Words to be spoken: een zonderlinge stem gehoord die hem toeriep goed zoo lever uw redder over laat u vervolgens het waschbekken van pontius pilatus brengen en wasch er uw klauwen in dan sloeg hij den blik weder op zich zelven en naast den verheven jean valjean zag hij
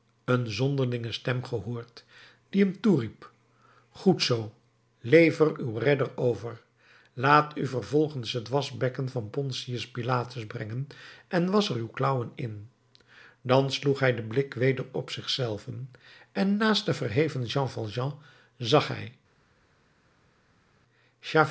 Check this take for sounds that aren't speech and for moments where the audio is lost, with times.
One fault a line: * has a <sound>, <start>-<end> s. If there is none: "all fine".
all fine